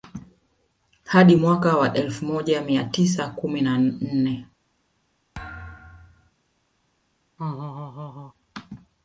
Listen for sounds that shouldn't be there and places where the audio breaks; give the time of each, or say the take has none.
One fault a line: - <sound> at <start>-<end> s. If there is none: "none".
- thud at 5.3-6.3 s
- laugh at 7.4-8.3 s